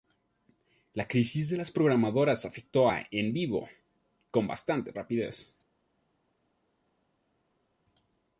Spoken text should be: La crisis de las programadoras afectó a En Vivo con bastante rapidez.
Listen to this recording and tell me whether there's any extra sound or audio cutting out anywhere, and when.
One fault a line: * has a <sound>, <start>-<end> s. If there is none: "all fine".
all fine